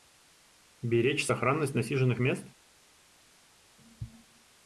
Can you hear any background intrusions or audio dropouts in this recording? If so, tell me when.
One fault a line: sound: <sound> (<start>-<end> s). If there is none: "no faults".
no faults